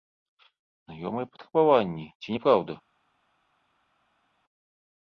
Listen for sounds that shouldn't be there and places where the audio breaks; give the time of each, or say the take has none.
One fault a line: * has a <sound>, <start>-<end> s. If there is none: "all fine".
all fine